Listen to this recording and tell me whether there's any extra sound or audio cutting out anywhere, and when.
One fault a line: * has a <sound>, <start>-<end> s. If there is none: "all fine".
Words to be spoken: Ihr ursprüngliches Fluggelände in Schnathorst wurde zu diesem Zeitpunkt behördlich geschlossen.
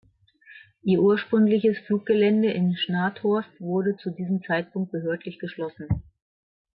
all fine